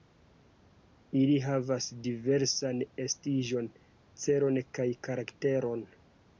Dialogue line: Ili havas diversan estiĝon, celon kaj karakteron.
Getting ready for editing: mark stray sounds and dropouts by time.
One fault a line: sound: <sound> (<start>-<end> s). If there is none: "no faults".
no faults